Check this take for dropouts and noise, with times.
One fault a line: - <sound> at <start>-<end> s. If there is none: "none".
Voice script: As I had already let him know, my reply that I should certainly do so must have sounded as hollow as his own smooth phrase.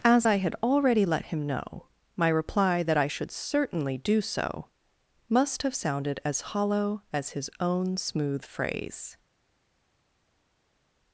none